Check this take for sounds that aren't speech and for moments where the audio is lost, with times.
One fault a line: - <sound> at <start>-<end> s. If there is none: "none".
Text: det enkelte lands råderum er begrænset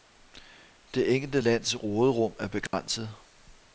- dropout at 2.7-2.7 s